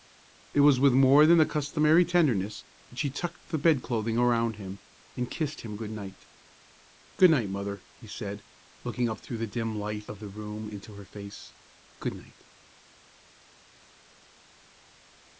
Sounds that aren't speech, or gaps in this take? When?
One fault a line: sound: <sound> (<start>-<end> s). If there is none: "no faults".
no faults